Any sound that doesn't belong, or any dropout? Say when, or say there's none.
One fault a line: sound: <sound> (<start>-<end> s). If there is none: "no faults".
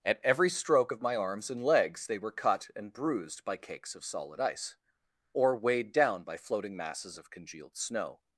no faults